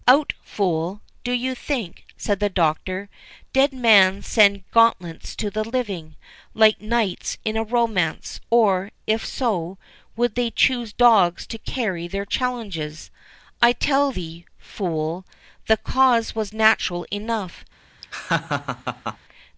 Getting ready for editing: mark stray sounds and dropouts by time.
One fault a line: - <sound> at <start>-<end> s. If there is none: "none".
- laugh at 18.0-19.2 s